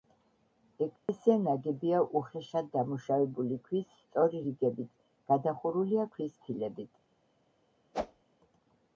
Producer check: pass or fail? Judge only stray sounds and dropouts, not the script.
fail